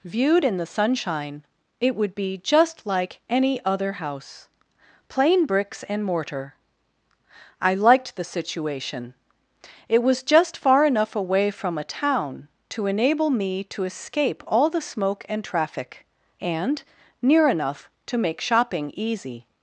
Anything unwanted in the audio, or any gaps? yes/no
no